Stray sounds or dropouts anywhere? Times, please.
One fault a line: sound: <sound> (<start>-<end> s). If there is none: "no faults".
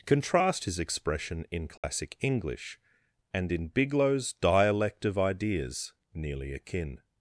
sound: dropout (1.8-1.8 s)